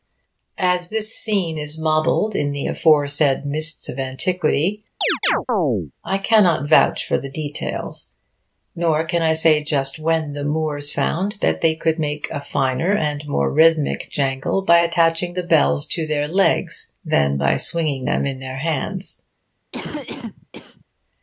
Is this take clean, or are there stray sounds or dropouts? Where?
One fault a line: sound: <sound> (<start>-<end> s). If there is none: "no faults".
sound: chirp (5.0-5.9 s)
sound: cough (19.7-20.8 s)